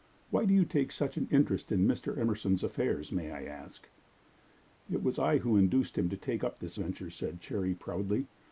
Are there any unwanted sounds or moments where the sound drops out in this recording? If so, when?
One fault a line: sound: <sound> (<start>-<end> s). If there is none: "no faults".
no faults